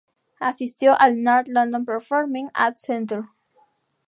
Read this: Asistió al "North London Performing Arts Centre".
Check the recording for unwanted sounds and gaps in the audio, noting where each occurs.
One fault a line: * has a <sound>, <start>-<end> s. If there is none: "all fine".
all fine